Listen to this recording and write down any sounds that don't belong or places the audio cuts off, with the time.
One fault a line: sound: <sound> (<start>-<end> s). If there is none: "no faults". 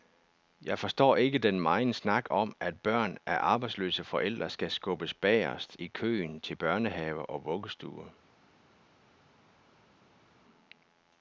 no faults